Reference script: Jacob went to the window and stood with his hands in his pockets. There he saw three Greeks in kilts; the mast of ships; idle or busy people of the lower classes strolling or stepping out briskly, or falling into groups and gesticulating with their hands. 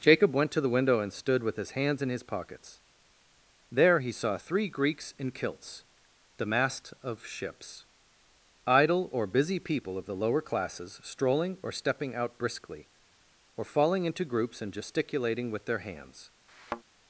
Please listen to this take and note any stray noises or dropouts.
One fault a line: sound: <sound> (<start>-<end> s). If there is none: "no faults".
sound: thud (16.5-16.8 s)